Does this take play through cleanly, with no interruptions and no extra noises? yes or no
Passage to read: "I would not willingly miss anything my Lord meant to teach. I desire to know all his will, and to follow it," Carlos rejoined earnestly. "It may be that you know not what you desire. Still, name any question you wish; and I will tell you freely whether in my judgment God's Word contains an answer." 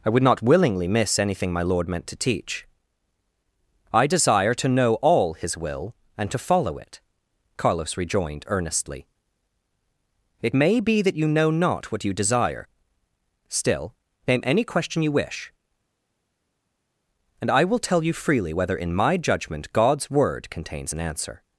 yes